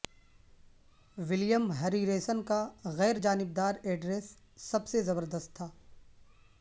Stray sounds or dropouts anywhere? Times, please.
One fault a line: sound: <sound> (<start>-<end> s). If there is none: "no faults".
no faults